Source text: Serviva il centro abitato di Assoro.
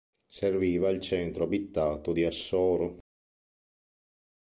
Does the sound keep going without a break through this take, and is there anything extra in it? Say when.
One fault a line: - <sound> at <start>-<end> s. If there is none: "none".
none